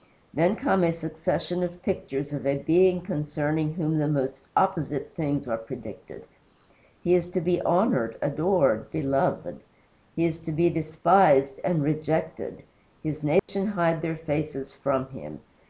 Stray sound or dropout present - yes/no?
yes